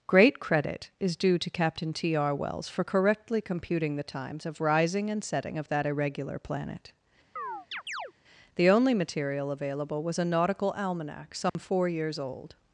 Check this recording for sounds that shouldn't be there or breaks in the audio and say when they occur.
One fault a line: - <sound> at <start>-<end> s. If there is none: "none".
- chirp at 7.4-8.1 s
- dropout at 11.5-11.6 s